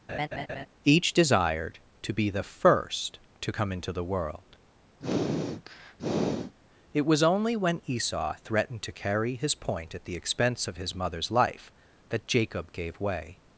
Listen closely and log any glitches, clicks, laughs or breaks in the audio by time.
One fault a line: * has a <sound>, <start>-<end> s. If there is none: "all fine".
* has a laugh, 0.1-0.7 s
* has a sniff, 5.0-6.5 s